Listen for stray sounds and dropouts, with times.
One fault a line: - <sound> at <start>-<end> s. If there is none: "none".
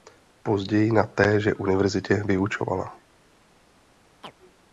- chirp at 4.2-4.3 s